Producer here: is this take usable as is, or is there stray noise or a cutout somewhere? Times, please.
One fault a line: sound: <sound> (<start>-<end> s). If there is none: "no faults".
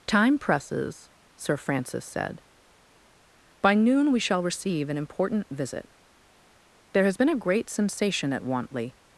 no faults